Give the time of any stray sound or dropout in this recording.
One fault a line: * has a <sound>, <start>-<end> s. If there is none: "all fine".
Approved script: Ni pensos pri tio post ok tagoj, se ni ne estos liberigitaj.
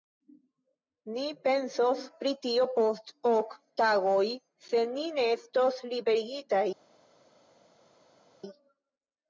all fine